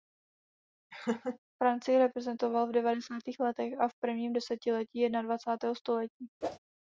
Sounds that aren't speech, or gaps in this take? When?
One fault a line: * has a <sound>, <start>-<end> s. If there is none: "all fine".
* has a laugh, 0.9-1.4 s
* has a whoosh, 6.4-6.6 s